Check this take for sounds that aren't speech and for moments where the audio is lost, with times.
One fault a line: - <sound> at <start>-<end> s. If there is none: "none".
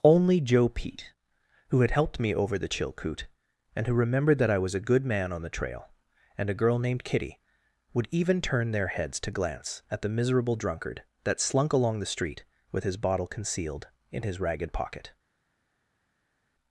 none